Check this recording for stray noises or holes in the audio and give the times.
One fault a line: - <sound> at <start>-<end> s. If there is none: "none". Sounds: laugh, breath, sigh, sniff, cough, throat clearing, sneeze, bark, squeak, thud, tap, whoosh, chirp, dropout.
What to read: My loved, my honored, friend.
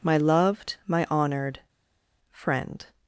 none